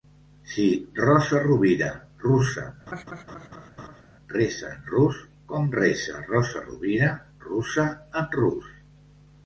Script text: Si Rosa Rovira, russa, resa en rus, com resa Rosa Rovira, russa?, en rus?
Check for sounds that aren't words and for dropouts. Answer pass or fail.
fail